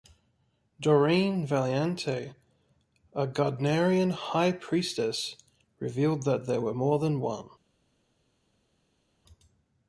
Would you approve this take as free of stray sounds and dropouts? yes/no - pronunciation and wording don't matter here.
yes